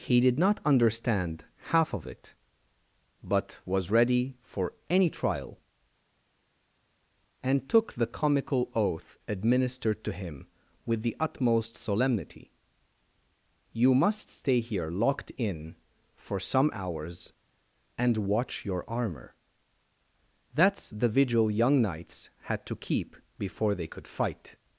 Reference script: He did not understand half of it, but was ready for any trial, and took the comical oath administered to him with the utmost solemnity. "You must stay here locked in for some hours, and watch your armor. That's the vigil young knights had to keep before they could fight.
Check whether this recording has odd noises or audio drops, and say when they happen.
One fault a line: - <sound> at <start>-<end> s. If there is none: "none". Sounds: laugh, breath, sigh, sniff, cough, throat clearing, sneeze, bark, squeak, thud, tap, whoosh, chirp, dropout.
none